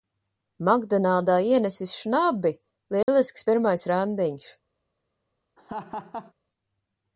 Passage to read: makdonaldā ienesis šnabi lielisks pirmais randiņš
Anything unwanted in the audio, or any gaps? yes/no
yes